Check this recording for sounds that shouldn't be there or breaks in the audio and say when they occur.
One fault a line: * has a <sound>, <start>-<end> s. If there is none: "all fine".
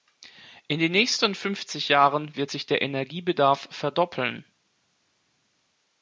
all fine